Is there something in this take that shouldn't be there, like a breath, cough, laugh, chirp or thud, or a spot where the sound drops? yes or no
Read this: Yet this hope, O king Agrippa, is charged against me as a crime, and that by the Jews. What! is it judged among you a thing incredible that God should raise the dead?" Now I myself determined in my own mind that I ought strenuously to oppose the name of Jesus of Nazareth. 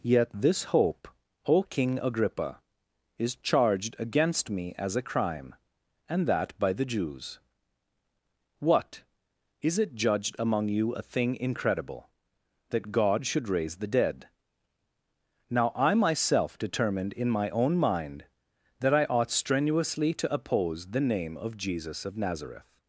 no